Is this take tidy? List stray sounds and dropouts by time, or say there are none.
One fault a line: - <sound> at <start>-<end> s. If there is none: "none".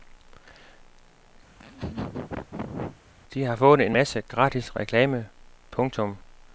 - laugh at 1.5-3.0 s